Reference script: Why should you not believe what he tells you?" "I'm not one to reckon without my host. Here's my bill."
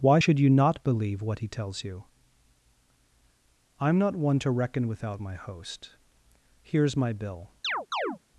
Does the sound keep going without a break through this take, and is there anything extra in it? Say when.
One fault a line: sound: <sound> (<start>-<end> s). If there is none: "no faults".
sound: chirp (7.6-8.2 s)